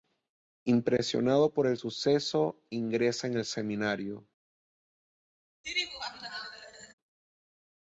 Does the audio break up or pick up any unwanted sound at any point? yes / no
yes